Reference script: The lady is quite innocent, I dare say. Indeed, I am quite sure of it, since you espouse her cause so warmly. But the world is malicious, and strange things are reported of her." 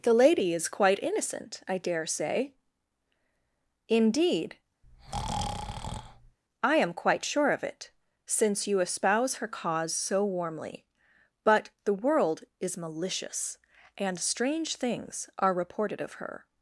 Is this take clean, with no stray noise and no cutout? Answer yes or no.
no